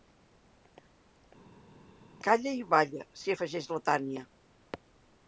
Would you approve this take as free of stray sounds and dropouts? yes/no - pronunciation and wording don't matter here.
yes